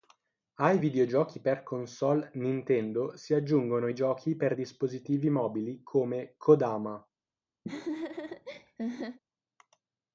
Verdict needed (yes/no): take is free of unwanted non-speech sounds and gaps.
no